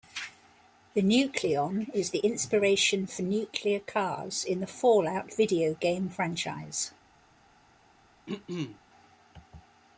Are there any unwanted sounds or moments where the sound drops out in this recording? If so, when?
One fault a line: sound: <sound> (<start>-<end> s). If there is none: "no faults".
sound: throat clearing (8.3-8.8 s)